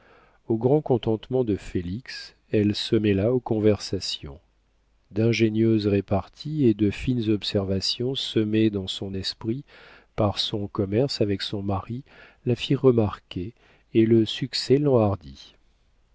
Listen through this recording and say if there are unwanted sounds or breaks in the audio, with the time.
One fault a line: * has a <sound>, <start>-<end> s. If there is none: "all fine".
all fine